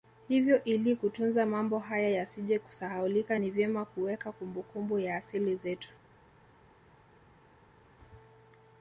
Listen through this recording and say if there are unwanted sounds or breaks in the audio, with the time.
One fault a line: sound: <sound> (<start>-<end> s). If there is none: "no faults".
no faults